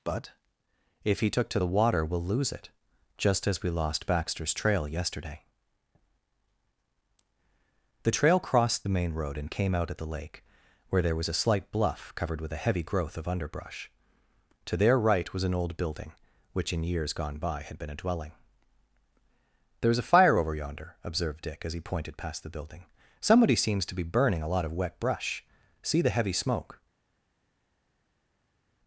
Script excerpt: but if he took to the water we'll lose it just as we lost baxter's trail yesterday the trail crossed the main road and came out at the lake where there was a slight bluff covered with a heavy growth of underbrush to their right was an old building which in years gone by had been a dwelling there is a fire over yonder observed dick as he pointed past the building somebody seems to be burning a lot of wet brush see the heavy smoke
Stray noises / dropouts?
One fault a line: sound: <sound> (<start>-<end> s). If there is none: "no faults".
no faults